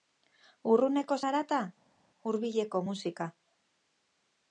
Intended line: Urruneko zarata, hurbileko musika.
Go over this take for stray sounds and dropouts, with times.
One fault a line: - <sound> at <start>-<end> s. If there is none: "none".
none